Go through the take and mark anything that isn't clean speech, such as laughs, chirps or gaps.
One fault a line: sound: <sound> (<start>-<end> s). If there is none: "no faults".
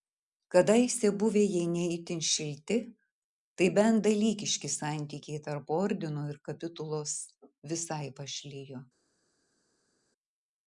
no faults